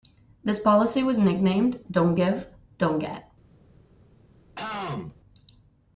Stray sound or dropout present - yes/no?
yes